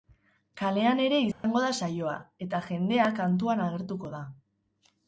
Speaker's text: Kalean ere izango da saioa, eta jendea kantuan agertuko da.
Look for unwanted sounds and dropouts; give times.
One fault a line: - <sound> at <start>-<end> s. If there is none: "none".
- dropout at 1.3-1.4 s